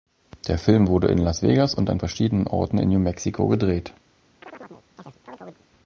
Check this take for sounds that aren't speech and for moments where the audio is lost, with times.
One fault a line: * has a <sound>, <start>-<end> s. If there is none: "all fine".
* has a chirp, 4.4-5.7 s